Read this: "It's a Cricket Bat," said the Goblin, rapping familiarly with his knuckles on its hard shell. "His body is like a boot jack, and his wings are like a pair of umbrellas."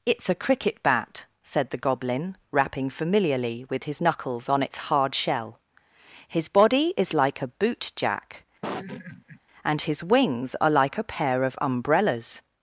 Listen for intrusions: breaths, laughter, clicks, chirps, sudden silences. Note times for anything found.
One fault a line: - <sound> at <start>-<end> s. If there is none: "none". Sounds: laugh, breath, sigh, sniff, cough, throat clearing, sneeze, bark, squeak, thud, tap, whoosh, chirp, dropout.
- laugh at 8.6-9.4 s